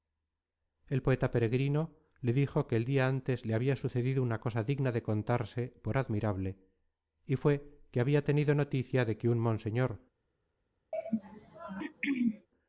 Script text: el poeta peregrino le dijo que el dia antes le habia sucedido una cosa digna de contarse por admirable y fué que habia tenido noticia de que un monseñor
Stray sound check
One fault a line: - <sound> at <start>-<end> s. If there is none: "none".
- throat clearing at 10.9-12.5 s